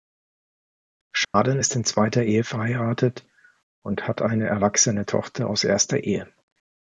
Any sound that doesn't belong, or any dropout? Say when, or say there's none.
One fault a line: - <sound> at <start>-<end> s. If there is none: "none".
- dropout at 1.2-1.3 s